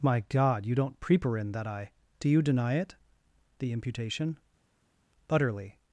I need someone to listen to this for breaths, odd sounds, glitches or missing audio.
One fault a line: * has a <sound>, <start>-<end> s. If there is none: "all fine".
all fine